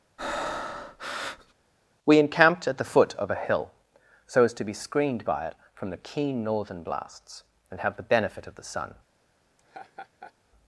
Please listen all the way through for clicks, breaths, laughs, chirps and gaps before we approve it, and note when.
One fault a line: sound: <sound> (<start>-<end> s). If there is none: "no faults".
sound: breath (0.2-1.5 s)
sound: laugh (9.6-10.3 s)